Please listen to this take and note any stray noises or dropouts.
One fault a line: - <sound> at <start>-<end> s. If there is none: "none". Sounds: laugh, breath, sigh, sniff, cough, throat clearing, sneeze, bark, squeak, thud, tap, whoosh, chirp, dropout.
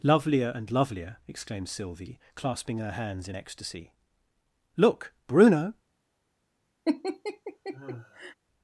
- laugh at 6.9-8.4 s